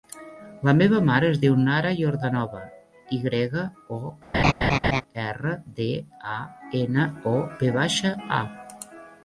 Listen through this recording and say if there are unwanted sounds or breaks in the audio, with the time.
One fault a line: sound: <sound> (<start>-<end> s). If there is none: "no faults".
sound: laugh (4.3-5.0 s)